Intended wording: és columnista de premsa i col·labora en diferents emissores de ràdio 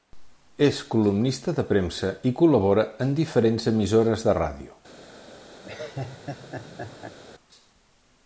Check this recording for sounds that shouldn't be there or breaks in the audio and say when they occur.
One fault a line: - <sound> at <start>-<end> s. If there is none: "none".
- laugh at 5.6-7.2 s